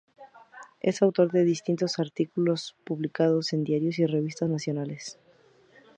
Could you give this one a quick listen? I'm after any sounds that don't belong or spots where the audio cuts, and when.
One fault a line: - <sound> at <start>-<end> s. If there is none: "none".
none